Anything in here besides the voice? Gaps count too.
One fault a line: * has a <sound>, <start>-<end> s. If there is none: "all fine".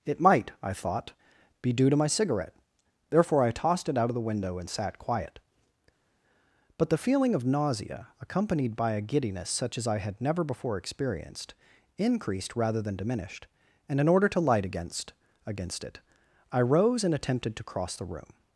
all fine